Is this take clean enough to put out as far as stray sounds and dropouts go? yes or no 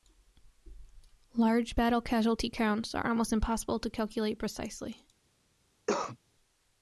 no